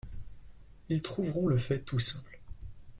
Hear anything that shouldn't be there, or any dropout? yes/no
no